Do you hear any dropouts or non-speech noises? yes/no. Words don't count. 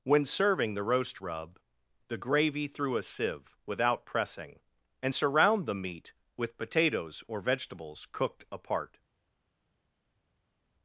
no